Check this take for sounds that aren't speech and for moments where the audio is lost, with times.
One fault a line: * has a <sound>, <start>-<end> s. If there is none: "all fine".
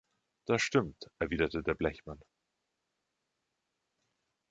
all fine